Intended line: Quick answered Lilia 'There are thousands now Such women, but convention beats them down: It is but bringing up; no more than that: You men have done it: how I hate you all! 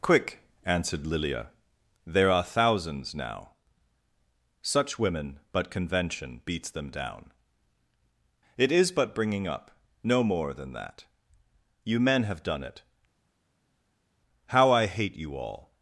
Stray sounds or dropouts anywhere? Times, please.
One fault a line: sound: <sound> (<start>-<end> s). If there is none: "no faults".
no faults